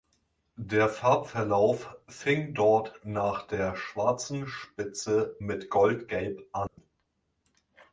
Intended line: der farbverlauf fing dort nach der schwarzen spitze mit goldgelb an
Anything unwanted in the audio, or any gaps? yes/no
yes